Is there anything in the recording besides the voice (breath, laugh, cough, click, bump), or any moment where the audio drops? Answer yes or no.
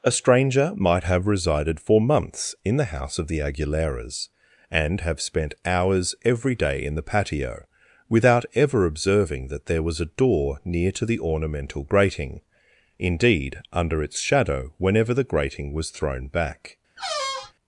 yes